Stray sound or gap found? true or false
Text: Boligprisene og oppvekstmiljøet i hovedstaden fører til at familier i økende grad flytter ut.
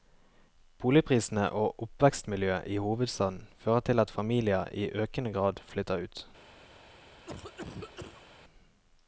true